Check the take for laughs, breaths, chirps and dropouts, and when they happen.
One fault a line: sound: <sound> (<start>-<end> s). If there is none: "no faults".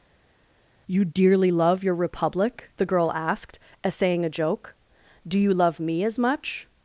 no faults